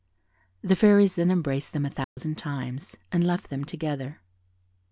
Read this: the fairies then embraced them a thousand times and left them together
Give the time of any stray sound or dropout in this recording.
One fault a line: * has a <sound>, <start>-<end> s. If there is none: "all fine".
* has a dropout, 2.0-2.2 s